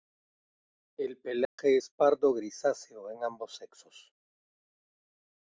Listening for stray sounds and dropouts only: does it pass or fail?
fail